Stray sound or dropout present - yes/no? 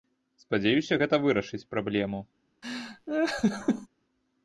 yes